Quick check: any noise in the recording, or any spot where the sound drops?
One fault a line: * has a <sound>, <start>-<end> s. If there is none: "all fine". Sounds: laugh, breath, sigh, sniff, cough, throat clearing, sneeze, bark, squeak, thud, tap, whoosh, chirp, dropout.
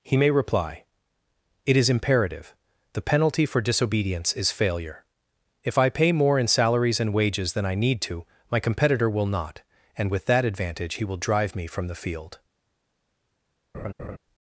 * has a laugh, 13.7-14.2 s